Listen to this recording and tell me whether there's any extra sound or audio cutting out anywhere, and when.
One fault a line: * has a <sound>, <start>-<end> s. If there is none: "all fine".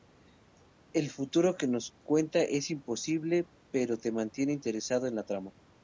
all fine